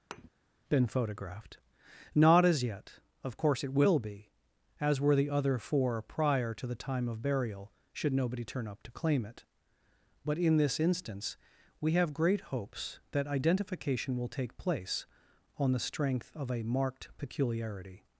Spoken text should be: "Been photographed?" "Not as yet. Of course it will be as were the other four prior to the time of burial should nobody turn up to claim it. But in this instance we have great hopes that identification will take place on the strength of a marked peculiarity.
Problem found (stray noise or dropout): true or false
true